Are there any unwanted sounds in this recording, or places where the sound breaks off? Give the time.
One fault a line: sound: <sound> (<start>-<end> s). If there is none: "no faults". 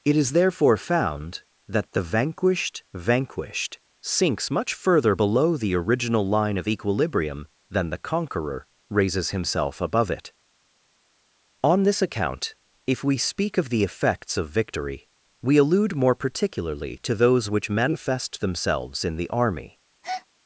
sound: breath (20.0-20.3 s)